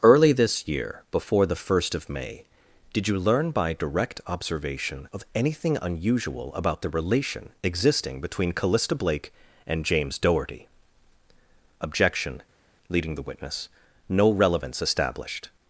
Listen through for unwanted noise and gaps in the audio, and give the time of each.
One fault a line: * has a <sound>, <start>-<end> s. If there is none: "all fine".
all fine